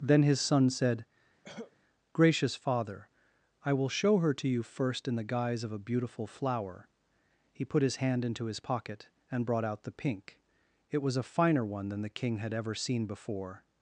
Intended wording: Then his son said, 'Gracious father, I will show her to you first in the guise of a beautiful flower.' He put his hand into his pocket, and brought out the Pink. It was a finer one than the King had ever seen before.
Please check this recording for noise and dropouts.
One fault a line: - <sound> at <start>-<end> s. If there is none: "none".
- cough at 1.4-1.8 s